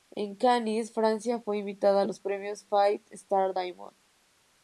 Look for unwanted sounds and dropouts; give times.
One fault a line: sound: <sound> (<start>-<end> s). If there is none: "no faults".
no faults